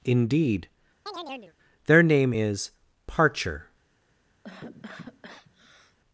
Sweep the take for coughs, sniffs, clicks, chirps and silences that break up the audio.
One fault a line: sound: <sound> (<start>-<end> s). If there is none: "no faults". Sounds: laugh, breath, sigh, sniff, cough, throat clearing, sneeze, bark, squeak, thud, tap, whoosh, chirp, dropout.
sound: chirp (1.1-1.5 s)
sound: cough (4.4-6.0 s)